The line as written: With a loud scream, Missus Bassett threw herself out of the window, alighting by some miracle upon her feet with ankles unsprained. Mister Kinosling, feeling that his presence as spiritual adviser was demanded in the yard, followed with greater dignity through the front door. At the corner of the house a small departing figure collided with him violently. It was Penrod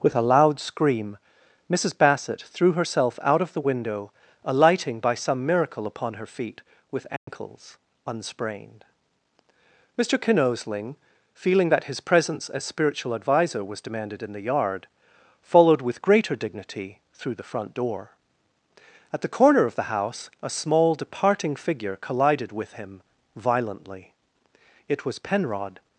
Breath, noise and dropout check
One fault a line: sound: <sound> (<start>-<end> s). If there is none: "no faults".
sound: dropout (7.2-7.3 s)